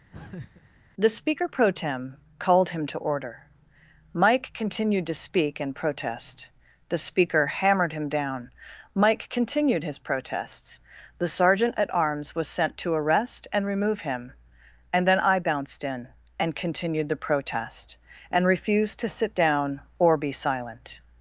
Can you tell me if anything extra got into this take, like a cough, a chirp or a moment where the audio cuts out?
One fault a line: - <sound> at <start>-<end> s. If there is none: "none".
- laugh at 0.1-0.7 s